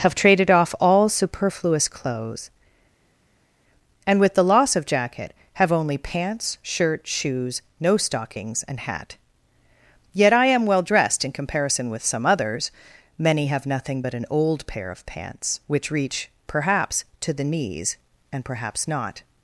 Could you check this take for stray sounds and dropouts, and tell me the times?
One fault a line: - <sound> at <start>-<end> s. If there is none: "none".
none